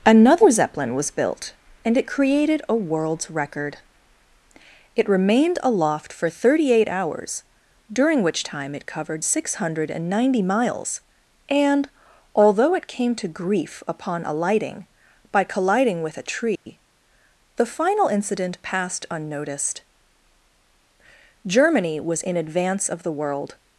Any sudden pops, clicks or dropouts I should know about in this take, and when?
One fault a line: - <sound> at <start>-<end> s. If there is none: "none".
- dropout at 16.6-16.7 s